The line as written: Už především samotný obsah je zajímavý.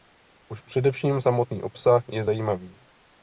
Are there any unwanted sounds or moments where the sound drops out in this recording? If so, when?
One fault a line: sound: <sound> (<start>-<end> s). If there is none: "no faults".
no faults